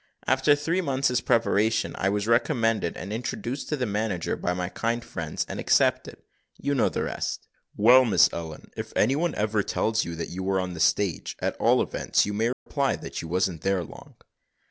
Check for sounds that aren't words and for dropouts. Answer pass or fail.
fail